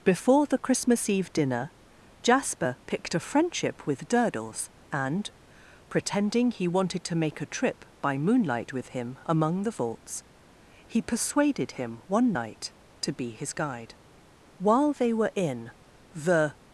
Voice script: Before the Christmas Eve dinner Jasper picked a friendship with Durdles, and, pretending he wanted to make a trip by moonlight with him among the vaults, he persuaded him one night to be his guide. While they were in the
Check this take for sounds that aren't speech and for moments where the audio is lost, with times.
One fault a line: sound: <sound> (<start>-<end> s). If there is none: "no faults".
no faults